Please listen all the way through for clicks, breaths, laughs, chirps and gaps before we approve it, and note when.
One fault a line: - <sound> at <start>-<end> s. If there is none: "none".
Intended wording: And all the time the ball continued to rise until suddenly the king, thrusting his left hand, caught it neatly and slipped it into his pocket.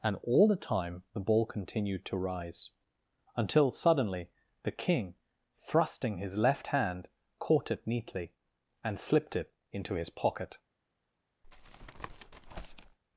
- tap at 11.4-13.0 s